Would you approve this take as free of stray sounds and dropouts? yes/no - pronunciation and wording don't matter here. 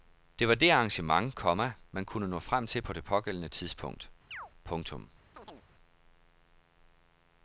no